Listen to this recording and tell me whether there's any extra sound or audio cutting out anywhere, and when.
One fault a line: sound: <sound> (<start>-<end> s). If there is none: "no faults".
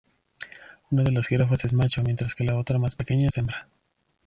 no faults